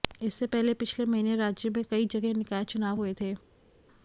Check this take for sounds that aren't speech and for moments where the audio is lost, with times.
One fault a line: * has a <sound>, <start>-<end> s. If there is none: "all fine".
all fine